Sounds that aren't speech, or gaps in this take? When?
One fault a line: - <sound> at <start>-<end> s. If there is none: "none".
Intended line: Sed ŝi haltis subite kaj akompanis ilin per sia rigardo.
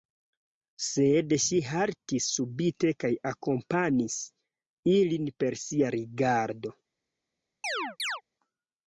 - chirp at 7.6-8.2 s